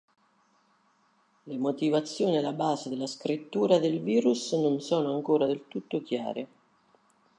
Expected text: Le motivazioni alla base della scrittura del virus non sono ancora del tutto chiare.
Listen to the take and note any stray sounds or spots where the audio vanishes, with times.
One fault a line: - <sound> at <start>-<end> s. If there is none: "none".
none